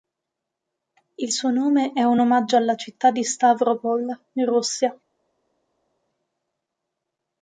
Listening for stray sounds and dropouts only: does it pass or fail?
pass